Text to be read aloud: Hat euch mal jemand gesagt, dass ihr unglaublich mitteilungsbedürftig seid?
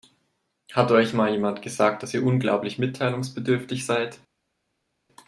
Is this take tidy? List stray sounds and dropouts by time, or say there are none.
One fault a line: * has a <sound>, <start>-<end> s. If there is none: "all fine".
all fine